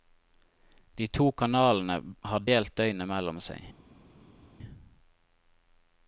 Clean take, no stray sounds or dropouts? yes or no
yes